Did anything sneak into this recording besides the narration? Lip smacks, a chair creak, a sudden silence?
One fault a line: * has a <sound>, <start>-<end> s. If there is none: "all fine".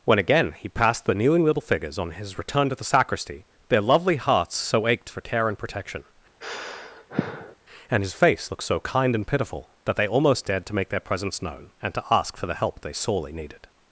* has a sigh, 6.4-7.6 s